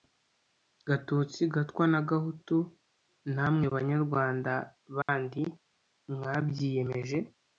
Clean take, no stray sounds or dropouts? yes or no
no